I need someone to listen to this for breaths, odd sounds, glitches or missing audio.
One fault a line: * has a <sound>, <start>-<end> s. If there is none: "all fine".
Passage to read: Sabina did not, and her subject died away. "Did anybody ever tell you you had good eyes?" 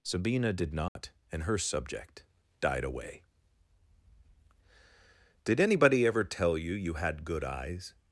* has a dropout, 0.9-1.0 s